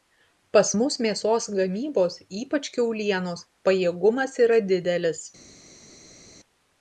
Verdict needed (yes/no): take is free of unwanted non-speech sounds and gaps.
yes